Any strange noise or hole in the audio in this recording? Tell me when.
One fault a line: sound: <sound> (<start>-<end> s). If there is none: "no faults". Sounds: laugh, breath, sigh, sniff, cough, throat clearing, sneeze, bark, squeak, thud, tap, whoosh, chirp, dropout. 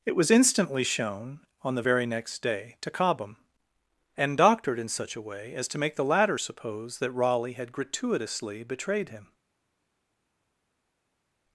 no faults